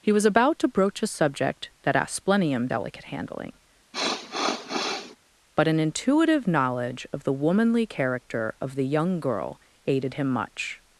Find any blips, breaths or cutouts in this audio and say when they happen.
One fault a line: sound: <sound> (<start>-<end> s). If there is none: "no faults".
sound: sniff (3.9-5.2 s)